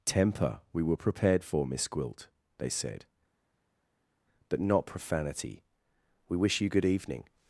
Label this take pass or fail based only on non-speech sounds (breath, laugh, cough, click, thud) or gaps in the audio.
pass